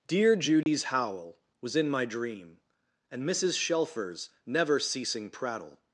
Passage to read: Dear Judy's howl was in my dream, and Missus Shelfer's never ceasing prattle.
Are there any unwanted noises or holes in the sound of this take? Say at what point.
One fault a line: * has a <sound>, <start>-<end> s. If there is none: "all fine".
* has a dropout, 0.6-0.7 s